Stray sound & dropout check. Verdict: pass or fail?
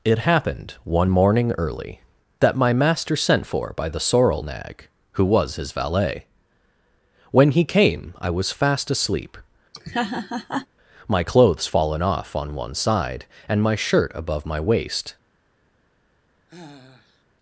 fail